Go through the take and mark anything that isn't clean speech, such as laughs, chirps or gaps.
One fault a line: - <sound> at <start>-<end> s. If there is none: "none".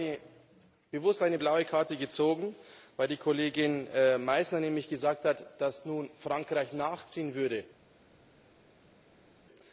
none